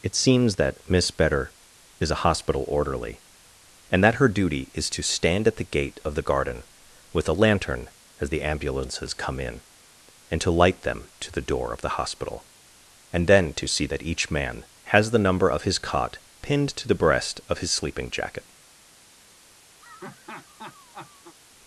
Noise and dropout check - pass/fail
fail